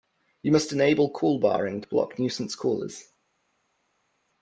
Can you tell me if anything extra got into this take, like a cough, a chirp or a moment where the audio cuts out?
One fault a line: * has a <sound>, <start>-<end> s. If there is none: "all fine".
all fine